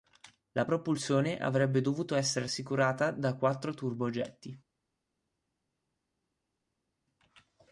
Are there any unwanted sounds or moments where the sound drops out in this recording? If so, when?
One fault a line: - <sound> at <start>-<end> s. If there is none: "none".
none